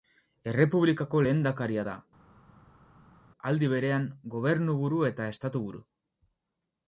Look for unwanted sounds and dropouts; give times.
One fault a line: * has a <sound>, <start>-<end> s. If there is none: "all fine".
all fine